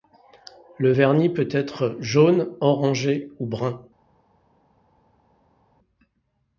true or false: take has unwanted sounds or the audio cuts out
false